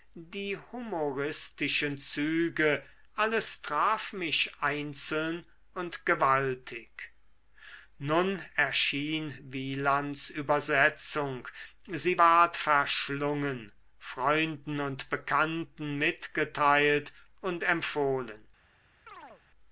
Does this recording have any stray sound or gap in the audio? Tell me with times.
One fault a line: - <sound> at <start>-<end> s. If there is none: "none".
- chirp at 19.1-19.4 s